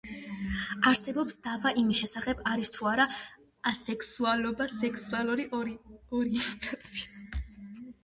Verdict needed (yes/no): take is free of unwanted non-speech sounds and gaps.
yes